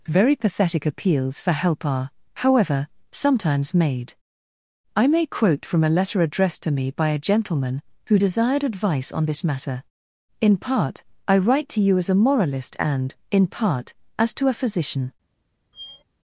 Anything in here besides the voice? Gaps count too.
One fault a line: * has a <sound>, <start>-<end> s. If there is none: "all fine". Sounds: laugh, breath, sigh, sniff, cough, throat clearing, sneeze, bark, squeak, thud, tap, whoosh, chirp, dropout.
* has a squeak, 15.7-16.0 s